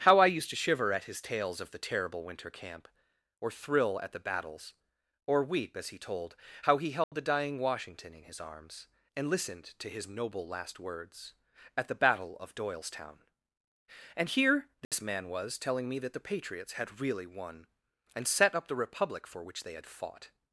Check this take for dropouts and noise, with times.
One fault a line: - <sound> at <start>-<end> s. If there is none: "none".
- dropout at 7.0-7.1 s
- dropout at 14.8-14.9 s